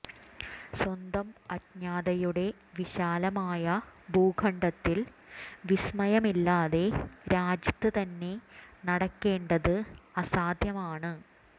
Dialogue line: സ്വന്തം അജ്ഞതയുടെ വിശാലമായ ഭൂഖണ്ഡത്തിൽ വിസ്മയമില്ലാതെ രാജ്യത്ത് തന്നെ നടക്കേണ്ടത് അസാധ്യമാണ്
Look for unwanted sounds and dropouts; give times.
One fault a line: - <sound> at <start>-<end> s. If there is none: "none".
none